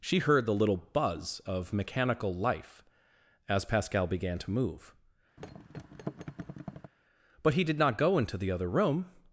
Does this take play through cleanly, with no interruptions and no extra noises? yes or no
no